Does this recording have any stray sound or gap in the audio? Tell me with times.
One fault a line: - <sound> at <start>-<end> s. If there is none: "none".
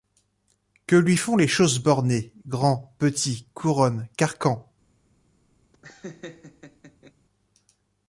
- laugh at 5.7-7.1 s